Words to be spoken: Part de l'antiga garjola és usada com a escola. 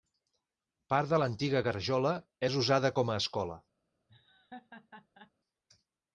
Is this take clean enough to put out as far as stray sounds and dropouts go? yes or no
no